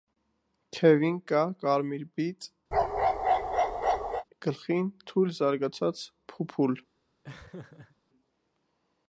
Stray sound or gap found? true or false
true